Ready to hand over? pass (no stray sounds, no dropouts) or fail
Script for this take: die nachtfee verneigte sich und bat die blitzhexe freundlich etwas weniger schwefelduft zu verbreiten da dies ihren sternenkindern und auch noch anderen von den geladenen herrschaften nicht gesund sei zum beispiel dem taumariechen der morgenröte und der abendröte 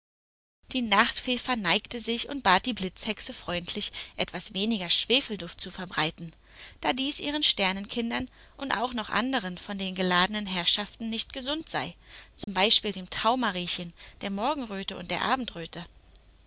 fail